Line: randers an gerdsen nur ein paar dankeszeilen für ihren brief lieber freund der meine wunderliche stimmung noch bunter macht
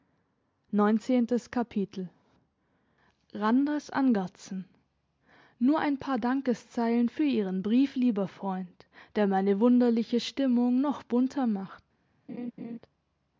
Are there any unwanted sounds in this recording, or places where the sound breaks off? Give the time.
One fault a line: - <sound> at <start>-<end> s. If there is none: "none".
- laugh at 12.3-12.8 s